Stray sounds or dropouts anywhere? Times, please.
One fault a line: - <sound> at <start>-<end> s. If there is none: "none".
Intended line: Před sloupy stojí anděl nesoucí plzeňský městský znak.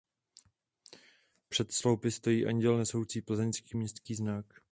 none